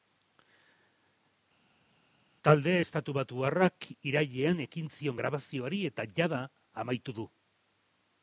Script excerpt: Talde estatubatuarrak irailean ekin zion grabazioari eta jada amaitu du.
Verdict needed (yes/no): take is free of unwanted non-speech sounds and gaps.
yes